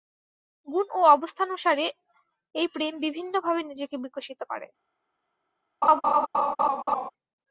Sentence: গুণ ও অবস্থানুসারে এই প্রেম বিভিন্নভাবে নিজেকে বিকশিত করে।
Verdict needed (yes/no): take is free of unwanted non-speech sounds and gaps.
no